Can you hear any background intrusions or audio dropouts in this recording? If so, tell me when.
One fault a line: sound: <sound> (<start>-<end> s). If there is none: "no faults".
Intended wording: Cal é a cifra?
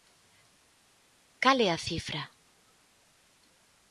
no faults